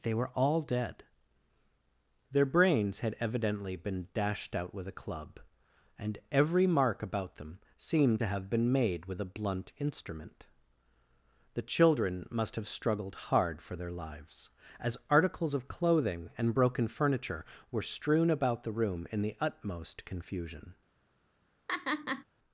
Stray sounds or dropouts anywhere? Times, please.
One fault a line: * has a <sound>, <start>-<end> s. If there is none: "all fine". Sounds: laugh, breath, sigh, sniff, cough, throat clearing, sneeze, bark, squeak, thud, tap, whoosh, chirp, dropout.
* has a laugh, 21.7-22.2 s